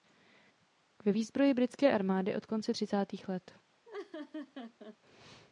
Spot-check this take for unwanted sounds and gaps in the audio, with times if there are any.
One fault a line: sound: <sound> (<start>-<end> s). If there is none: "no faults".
sound: laugh (3.8-5.0 s)